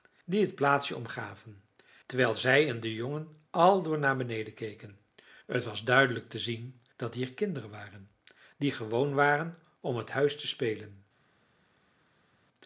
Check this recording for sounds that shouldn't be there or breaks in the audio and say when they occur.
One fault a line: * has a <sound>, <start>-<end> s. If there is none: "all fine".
all fine